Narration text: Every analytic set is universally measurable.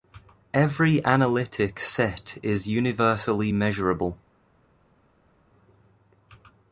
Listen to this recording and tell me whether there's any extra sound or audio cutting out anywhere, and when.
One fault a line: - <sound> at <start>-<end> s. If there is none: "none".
none